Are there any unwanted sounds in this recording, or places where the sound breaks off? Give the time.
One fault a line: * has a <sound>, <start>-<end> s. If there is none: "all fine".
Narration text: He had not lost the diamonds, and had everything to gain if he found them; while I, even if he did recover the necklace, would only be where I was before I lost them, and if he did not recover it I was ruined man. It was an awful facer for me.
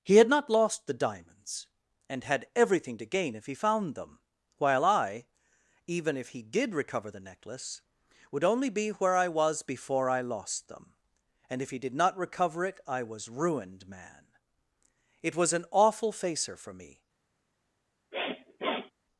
* has a sniff, 18.1-18.9 s